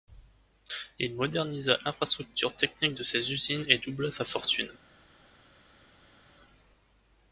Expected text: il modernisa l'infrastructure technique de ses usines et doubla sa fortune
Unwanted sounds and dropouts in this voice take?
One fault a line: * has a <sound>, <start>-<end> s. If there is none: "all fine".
all fine